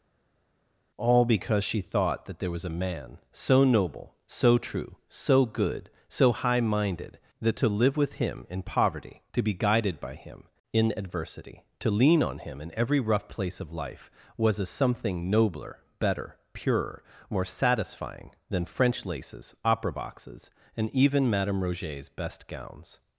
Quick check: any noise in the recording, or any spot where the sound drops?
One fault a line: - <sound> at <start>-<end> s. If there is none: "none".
none